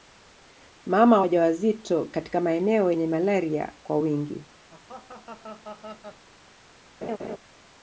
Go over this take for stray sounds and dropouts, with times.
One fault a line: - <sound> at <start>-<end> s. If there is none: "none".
- laugh at 4.7-6.3 s
- laugh at 7.0-7.4 s